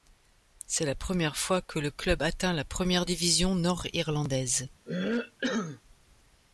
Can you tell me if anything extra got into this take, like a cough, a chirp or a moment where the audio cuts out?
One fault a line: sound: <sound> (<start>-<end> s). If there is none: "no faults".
sound: cough (4.9-5.8 s)